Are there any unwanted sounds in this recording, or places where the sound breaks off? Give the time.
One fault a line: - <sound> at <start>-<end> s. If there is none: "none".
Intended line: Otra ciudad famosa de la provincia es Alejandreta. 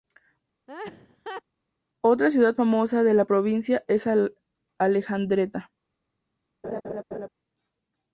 - laugh at 0.7-1.4 s
- laugh at 6.6-7.3 s